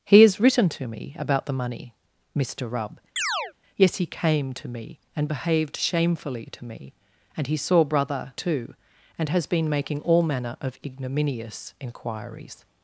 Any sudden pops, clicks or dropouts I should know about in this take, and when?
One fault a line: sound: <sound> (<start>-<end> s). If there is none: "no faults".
sound: chirp (3.2-3.5 s)